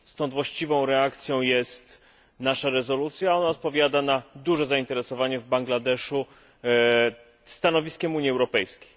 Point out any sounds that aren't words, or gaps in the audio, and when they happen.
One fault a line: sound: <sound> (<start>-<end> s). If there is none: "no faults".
no faults